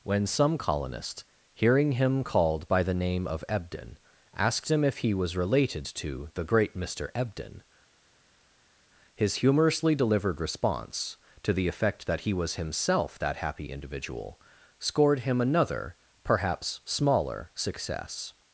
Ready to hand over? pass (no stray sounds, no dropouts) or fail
pass